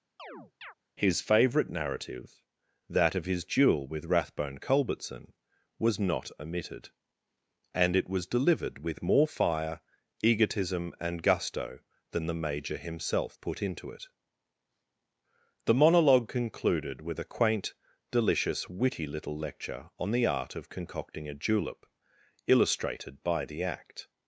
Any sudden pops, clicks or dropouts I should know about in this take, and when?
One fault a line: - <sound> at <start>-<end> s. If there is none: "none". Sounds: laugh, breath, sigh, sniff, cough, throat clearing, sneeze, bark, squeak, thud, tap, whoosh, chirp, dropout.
- chirp at 0.2-0.7 s